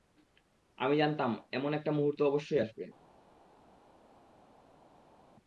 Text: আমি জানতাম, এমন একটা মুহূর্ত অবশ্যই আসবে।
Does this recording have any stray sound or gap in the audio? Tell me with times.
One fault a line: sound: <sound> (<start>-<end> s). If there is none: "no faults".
no faults